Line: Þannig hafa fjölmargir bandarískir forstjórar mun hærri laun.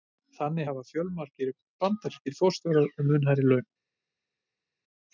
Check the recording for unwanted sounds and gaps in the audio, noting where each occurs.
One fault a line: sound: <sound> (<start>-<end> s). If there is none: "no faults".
no faults